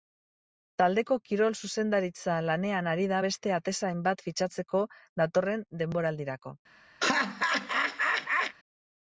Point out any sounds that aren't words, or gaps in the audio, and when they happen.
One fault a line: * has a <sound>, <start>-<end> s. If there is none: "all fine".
* has a laugh, 7.0-8.6 s